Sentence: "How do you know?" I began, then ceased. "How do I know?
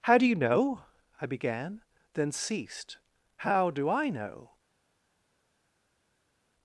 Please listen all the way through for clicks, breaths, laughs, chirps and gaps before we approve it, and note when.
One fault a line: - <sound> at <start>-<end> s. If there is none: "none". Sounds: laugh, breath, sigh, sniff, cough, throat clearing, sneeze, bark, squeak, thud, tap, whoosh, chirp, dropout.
none